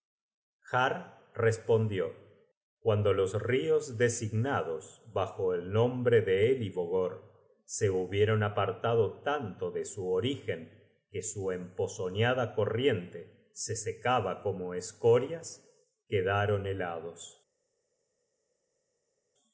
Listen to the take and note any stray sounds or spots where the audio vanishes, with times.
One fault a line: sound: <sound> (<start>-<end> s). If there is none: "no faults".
no faults